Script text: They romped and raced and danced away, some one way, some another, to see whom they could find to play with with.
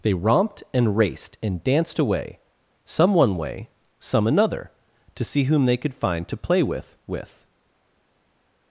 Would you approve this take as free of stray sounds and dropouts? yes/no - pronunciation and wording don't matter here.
yes